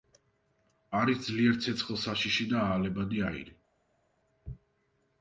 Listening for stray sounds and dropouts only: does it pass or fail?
pass